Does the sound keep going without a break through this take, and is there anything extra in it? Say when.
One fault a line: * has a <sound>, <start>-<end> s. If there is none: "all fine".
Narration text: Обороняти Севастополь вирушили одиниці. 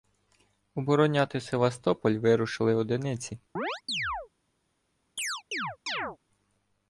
* has a chirp, 3.6-4.3 s
* has a chirp, 5.2-6.2 s